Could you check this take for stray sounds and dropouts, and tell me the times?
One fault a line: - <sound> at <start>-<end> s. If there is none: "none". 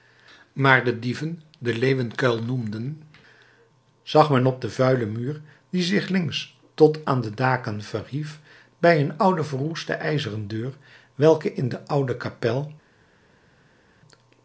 none